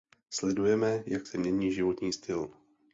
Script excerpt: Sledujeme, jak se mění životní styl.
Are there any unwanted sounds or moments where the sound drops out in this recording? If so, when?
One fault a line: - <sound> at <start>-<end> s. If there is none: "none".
none